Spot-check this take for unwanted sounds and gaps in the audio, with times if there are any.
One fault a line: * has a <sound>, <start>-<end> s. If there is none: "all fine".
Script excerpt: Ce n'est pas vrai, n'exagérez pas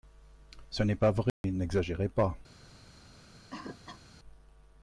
* has a dropout, 1.3-1.4 s
* has a cough, 3.5-4.0 s